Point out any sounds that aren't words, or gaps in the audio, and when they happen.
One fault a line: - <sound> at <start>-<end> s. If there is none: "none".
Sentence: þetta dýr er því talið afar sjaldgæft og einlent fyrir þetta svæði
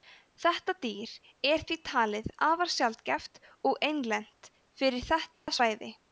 - dropout at 5.3-5.5 s